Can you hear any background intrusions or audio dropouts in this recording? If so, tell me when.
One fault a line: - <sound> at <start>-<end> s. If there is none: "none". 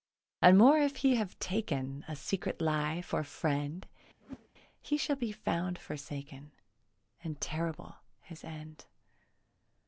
- whoosh at 4.2-4.5 s